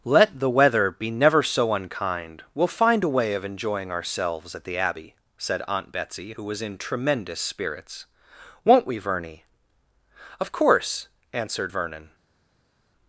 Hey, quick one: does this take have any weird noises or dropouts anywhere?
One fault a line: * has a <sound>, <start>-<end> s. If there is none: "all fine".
all fine